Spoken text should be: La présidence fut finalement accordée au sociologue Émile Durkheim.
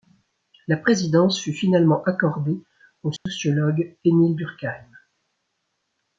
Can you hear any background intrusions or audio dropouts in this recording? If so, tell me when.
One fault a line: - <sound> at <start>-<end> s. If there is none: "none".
- dropout at 3.2-3.3 s